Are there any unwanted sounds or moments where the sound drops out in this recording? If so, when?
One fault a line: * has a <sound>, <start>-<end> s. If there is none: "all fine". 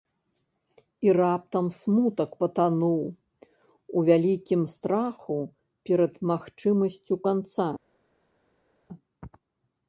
all fine